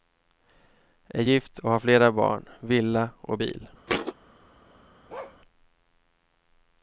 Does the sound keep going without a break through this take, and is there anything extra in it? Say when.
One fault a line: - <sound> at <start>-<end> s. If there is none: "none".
- thud at 3.9-4.1 s
- bark at 5.1-5.4 s